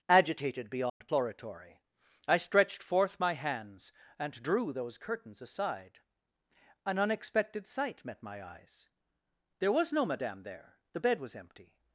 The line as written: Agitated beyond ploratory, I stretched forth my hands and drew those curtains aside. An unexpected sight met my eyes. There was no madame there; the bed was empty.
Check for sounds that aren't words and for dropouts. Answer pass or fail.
fail